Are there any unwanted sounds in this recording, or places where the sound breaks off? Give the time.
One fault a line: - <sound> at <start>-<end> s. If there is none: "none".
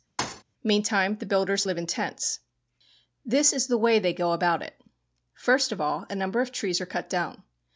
- thud at 0.2-0.4 s